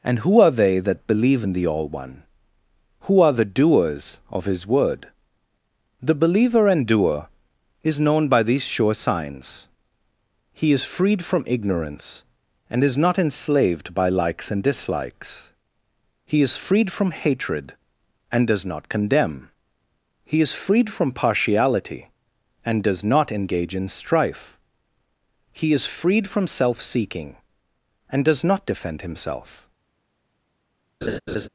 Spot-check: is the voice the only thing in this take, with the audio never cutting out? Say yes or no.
no